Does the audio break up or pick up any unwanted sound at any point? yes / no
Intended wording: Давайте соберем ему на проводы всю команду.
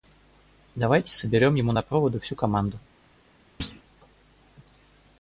yes